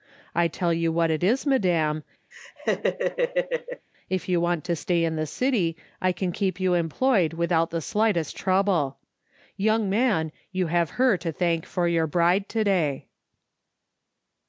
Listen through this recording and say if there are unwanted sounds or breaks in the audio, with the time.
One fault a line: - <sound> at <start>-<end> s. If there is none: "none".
- laugh at 2.3-3.9 s